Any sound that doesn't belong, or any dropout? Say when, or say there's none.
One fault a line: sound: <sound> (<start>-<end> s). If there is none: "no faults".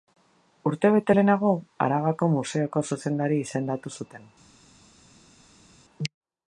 no faults